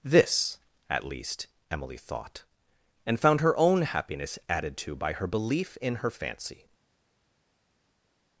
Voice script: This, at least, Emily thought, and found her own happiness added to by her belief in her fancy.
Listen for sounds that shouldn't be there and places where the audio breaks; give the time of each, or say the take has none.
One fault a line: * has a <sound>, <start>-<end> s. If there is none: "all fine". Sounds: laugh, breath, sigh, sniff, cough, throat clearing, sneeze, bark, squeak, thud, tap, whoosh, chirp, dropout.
all fine